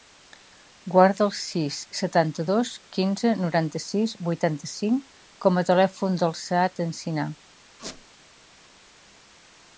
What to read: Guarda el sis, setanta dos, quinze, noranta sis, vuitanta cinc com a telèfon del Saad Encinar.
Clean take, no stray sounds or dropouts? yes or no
no